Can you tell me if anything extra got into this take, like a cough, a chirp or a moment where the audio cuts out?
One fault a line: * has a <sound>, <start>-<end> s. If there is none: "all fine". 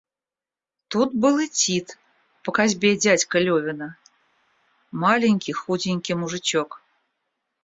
all fine